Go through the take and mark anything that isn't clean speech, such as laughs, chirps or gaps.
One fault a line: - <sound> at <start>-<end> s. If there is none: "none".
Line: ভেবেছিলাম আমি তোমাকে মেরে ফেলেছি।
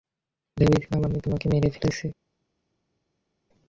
none